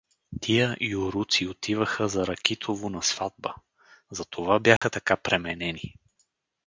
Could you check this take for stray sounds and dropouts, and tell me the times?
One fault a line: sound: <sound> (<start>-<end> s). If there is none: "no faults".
sound: dropout (4.8-4.8 s)